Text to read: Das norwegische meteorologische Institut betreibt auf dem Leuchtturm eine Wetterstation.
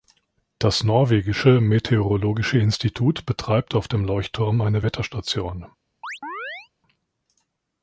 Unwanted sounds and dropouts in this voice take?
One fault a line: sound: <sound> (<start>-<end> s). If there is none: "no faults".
sound: chirp (6.0-6.7 s)